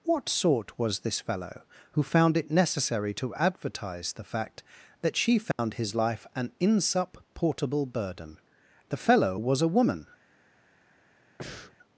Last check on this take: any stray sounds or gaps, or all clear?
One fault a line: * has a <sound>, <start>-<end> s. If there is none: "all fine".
* has a dropout, 5.5-5.6 s
* has a breath, 11.4-11.8 s